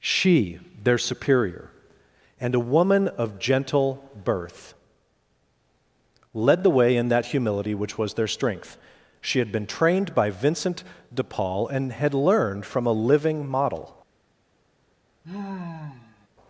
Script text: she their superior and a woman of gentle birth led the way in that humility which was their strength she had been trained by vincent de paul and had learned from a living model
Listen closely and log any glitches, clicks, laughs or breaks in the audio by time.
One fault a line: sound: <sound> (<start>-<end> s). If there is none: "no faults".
sound: sigh (15.2-16.3 s)